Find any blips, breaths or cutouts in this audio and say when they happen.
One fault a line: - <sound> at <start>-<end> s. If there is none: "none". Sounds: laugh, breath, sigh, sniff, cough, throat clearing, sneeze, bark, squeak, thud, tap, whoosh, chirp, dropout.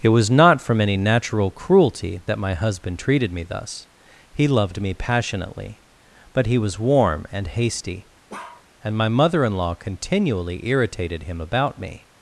- bark at 8.3-8.7 s